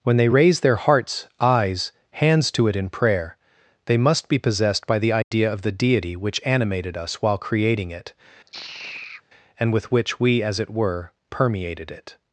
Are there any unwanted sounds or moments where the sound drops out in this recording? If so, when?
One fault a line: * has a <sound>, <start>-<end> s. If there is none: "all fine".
* has a dropout, 5.2-5.3 s
* has a sigh, 8.5-9.2 s